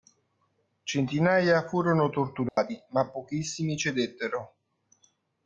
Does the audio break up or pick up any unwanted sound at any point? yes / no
yes